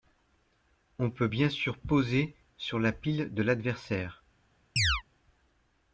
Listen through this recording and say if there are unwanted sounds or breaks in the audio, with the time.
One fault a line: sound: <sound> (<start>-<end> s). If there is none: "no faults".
sound: chirp (4.8-5.0 s)